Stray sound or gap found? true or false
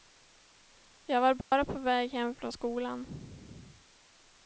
true